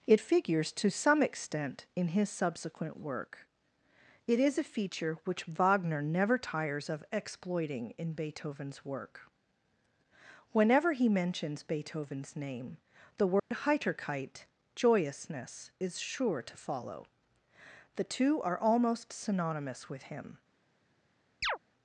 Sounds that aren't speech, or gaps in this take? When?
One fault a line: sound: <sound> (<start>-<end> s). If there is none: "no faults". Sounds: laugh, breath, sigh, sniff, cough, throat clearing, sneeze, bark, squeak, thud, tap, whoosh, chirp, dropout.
sound: dropout (13.4-13.5 s)
sound: chirp (21.4-21.6 s)